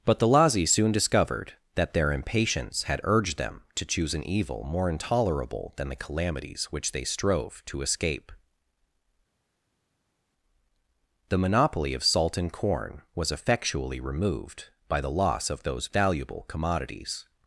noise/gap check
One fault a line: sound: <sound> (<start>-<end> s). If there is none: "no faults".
no faults